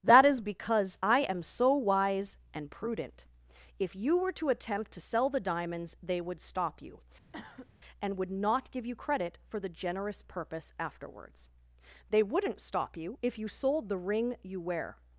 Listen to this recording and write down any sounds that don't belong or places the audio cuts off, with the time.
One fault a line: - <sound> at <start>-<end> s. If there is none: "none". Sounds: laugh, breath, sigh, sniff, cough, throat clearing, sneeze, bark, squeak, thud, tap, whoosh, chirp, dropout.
- cough at 7.3-7.7 s